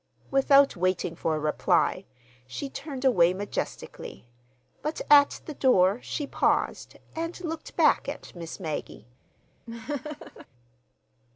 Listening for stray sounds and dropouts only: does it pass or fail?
fail